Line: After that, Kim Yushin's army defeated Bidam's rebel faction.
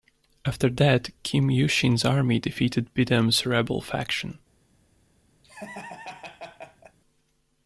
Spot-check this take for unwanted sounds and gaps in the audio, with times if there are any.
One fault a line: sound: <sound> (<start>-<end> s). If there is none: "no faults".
sound: laugh (5.4-7.0 s)